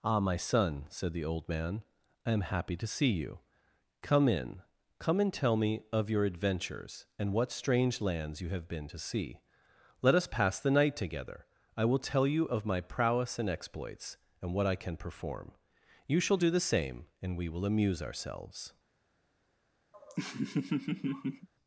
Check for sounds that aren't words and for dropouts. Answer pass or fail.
fail